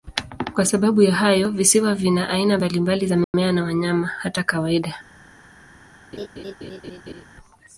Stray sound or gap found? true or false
true